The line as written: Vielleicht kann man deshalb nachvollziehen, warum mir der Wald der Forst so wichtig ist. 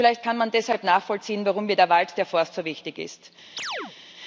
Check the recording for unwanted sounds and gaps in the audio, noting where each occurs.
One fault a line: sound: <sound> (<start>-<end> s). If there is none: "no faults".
sound: chirp (3.6-3.9 s)